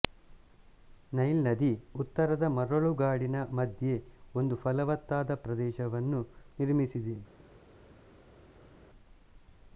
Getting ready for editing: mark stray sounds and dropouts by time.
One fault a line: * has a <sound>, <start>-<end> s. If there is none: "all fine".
all fine